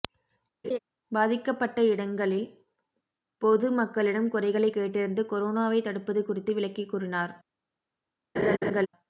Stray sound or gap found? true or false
true